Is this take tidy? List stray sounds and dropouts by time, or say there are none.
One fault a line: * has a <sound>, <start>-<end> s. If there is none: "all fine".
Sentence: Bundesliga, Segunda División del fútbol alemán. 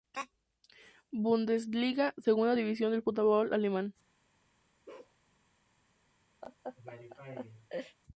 * has a bark, 4.9-5.2 s
* has a laugh, 6.4-8.0 s